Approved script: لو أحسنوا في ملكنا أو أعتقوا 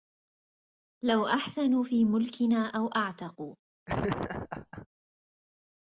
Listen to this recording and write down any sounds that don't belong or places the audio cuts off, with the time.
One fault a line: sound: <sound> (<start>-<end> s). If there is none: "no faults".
sound: laugh (3.9-4.9 s)